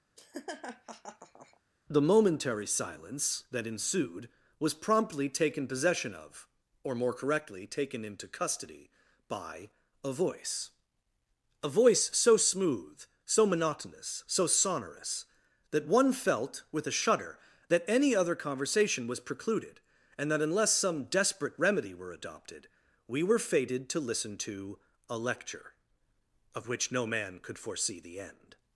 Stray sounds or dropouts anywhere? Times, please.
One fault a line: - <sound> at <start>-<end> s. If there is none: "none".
- laugh at 0.2-1.6 s